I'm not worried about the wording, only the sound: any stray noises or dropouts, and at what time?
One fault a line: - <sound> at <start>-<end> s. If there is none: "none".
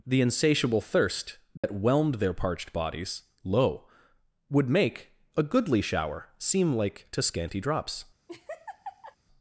- dropout at 1.6-1.6 s
- laugh at 8.3-9.2 s